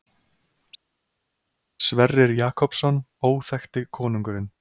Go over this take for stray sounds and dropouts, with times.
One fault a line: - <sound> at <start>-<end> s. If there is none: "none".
none